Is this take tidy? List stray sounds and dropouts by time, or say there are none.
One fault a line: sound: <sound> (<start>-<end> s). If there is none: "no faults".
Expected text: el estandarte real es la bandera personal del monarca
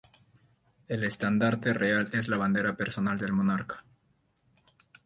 no faults